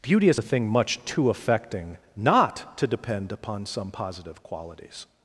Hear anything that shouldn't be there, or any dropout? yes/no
no